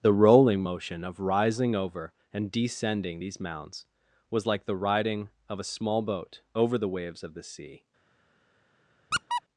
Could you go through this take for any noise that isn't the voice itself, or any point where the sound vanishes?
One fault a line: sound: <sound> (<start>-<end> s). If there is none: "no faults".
sound: squeak (9.1-9.4 s)